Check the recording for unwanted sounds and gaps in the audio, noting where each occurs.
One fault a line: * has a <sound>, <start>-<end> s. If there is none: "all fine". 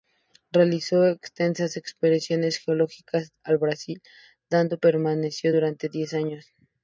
all fine